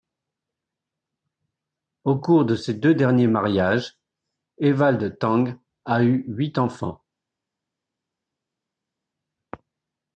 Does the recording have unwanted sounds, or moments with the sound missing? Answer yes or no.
no